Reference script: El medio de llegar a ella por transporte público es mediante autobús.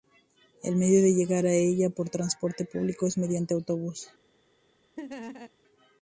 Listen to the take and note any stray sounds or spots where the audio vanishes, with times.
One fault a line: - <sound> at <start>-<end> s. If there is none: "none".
- laugh at 5.0-5.5 s